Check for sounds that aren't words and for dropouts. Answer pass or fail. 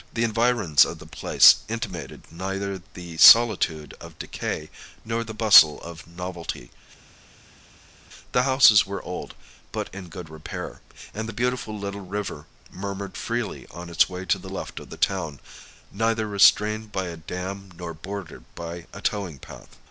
pass